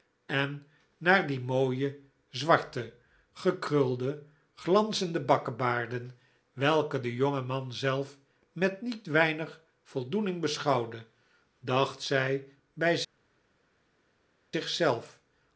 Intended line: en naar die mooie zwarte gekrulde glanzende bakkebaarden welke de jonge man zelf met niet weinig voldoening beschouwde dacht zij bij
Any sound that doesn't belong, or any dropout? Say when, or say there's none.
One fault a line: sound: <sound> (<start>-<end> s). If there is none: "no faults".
no faults